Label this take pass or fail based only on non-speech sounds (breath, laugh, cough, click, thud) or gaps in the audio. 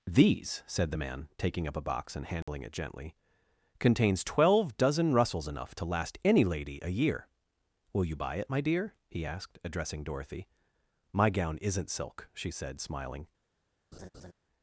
fail